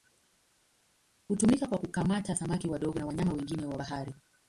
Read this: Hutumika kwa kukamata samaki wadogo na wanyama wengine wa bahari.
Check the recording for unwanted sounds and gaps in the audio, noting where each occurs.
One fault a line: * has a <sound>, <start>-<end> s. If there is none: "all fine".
all fine